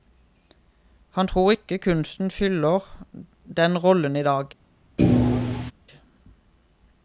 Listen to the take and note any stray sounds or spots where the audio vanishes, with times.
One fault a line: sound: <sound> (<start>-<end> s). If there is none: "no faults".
sound: thud (5.0-5.7 s)